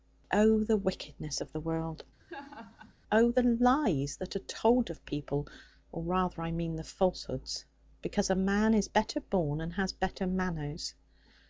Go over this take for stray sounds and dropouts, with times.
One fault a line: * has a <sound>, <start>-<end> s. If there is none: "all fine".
* has a laugh, 2.2-2.9 s